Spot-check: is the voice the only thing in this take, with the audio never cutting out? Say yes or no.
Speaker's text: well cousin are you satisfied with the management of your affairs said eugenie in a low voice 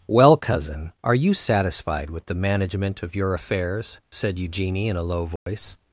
no